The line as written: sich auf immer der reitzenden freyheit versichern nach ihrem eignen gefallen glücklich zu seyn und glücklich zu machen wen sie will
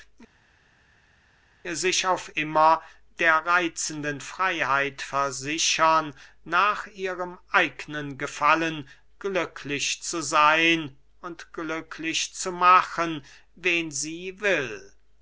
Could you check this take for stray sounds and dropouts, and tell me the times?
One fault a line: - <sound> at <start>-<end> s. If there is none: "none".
none